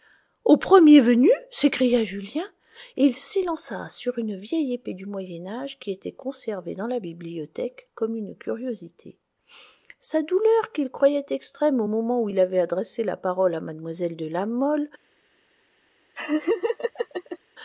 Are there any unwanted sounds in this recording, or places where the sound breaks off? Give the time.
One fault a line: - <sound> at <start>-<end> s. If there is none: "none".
- laugh at 16.1-17.4 s